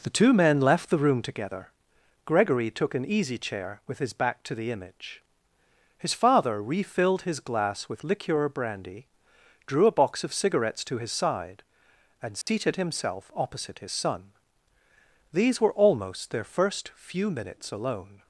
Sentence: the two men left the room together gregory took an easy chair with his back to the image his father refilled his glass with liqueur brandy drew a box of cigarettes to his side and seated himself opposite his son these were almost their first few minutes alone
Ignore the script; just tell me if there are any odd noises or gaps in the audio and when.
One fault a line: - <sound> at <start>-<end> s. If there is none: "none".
- dropout at 12.4-12.5 s